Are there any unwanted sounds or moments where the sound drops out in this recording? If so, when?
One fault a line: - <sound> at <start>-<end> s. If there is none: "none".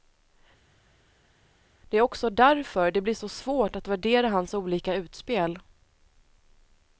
none